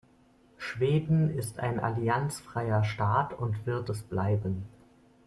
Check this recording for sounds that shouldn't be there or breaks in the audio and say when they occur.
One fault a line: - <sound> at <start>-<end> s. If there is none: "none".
none